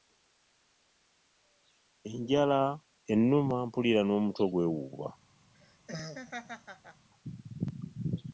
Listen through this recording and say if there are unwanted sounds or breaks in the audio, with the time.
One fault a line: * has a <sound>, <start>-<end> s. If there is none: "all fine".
* has a laugh, 5.5-7.1 s